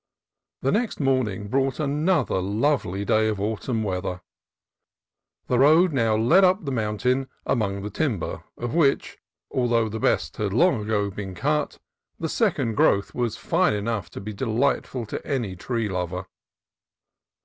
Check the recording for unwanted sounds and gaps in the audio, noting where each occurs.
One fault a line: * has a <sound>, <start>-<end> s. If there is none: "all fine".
all fine